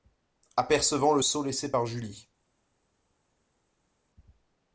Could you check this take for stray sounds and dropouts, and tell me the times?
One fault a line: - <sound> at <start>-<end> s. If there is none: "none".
none